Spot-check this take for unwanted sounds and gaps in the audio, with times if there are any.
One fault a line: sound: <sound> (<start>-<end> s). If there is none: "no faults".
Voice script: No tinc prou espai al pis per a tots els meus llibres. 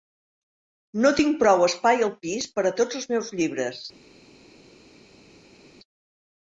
no faults